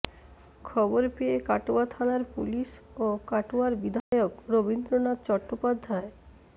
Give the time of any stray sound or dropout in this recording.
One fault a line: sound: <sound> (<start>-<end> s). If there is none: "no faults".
sound: dropout (4.0-4.1 s)